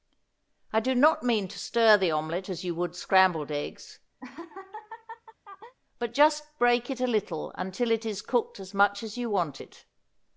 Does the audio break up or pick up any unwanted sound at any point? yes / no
yes